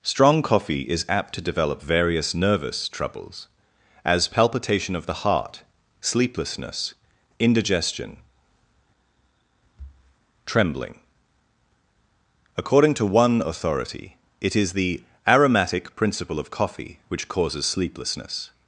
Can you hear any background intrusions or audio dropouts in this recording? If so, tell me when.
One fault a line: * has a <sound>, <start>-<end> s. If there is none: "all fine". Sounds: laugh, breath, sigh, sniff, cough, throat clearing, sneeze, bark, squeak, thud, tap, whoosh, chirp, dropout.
all fine